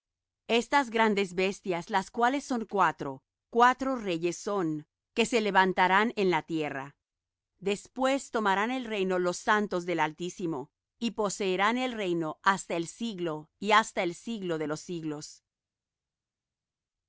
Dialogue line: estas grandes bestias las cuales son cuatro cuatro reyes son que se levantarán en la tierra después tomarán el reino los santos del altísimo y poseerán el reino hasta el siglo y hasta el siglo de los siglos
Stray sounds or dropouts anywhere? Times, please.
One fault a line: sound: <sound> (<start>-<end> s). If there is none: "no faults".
no faults